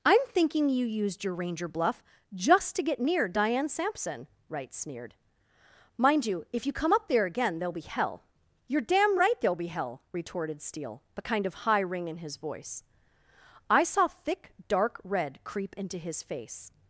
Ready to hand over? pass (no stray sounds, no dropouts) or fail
pass